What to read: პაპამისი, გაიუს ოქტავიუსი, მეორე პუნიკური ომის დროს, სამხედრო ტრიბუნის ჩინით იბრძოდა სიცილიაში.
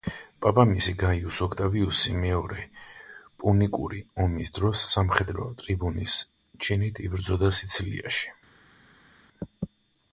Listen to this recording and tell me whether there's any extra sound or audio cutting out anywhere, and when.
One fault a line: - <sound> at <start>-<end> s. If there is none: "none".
none